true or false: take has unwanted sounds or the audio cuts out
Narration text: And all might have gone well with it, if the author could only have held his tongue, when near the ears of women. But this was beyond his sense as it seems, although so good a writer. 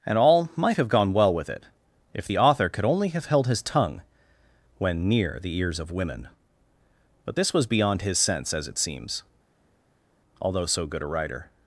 false